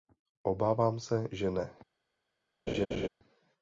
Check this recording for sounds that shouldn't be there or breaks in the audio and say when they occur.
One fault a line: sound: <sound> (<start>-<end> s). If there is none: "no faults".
sound: laugh (2.7-3.1 s)